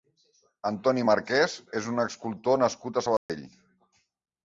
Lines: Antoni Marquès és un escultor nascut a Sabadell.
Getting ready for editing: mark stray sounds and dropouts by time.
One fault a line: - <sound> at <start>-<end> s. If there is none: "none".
- dropout at 3.2-3.3 s